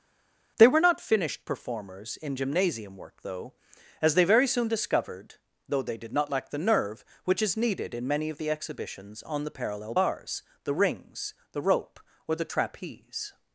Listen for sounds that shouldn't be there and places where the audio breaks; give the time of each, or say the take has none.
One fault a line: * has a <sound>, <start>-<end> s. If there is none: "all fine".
all fine